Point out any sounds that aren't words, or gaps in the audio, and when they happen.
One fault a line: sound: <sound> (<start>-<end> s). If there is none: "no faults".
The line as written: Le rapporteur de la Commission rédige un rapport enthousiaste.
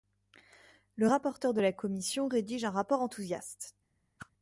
sound: whoosh (4.2-4.3 s)